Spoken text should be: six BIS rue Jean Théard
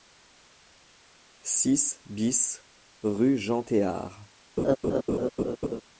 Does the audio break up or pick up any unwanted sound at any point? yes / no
yes